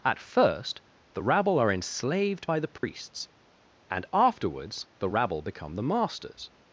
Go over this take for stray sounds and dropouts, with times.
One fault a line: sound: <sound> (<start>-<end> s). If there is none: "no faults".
sound: dropout (2.8-2.8 s)